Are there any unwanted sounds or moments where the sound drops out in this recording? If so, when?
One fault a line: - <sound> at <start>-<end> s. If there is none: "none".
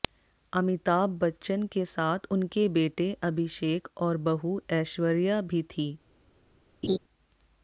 - laugh at 6.8-7.0 s